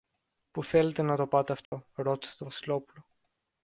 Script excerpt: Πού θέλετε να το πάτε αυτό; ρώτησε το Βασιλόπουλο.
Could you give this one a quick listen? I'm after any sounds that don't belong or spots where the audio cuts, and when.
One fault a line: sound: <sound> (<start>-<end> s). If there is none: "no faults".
sound: dropout (1.7-1.7 s)